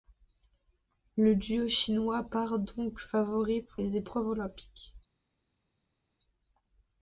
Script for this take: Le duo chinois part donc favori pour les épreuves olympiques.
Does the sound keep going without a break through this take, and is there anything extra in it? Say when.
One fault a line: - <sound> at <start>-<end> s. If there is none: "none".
none